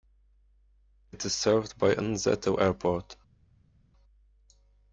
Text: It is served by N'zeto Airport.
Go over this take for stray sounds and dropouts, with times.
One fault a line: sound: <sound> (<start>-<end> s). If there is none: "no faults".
no faults